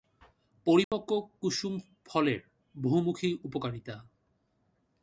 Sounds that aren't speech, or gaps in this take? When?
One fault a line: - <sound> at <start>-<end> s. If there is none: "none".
- dropout at 0.8-0.9 s